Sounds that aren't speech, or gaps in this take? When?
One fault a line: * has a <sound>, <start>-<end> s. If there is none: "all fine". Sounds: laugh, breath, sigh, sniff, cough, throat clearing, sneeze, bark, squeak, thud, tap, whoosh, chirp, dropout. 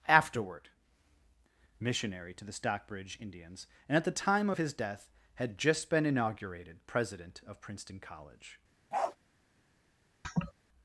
* has a bark, 8.9-9.2 s
* has a laugh, 10.2-10.5 s